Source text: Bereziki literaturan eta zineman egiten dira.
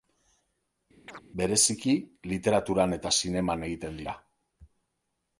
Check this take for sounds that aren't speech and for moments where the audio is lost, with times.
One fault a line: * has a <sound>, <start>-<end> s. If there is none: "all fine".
* has a chirp, 1.1-1.2 s